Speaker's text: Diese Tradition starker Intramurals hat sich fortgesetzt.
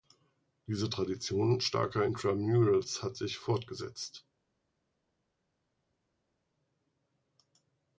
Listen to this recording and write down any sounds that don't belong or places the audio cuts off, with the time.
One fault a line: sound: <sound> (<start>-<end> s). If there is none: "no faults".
no faults